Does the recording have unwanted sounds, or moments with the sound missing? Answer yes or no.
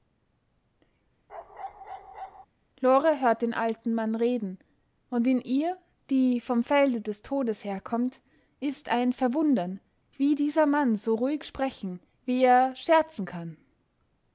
yes